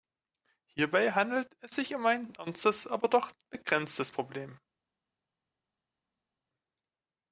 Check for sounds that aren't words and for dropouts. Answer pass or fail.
pass